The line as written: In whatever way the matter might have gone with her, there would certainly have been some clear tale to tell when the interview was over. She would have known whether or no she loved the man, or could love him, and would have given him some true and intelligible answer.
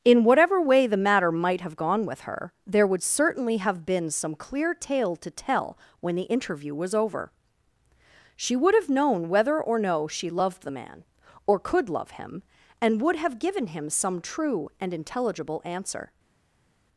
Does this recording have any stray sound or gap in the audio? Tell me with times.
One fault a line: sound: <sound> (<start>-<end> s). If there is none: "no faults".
no faults